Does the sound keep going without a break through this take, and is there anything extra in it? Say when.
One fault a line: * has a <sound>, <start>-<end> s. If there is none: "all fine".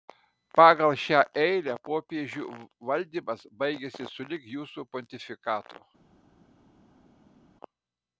all fine